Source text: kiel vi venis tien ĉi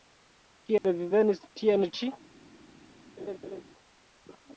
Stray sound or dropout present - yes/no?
yes